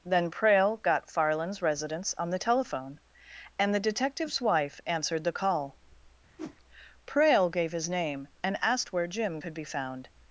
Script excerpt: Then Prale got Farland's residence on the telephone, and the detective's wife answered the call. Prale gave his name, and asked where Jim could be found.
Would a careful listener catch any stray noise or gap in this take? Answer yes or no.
yes